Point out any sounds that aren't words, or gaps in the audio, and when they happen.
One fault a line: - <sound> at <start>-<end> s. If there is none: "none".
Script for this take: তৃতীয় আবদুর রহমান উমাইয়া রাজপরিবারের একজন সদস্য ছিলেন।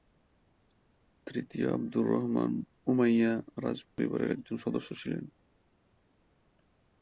- dropout at 3.9-4.0 s